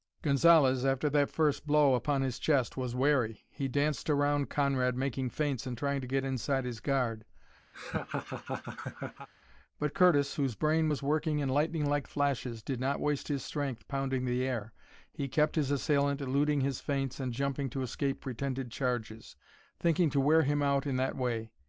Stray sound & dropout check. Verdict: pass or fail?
fail